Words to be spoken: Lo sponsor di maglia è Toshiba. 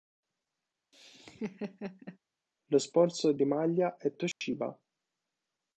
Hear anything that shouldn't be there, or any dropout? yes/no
yes